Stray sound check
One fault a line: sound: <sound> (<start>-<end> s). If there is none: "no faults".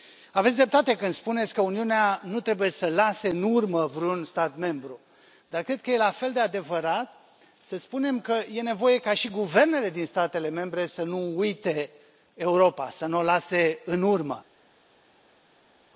no faults